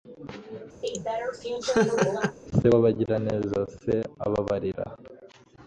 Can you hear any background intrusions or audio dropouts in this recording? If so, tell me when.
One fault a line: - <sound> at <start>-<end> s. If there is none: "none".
- laugh at 0.8-2.4 s